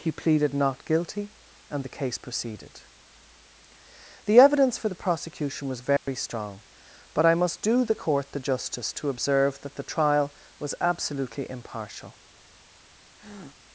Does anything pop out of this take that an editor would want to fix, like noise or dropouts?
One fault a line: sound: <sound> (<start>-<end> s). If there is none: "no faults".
sound: dropout (6.0-6.1 s)
sound: breath (13.2-13.6 s)